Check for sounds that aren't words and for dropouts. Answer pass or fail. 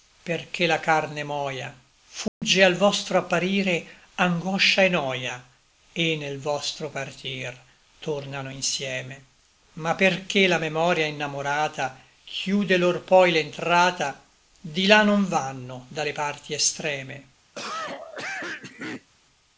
fail